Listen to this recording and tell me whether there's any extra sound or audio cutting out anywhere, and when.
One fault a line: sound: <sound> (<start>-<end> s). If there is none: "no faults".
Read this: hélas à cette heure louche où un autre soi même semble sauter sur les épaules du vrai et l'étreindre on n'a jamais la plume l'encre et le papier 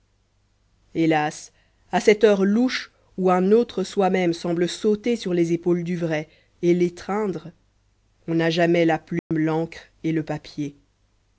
sound: dropout (9.2-9.3 s)